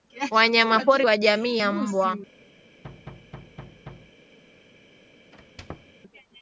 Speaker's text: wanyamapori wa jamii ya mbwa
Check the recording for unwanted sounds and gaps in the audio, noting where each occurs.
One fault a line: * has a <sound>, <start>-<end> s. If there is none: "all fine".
* has a thud, 2.8-4.2 s
* has a squeak, 5.3-6.0 s